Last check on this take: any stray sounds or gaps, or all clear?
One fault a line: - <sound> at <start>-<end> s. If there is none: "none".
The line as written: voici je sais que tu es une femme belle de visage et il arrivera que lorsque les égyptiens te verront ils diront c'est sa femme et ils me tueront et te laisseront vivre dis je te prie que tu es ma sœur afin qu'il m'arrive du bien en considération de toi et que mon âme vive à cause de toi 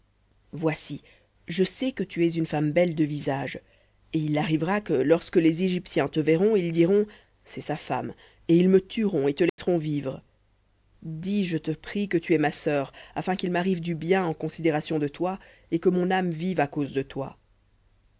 - dropout at 9.5-9.6 s